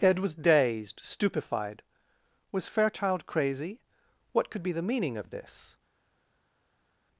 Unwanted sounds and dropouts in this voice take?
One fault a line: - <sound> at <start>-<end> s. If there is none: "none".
none